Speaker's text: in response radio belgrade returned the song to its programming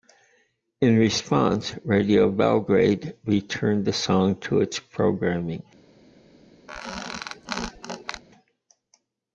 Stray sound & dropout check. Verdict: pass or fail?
fail